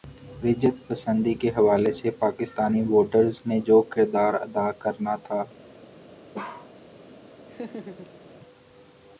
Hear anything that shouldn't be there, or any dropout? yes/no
yes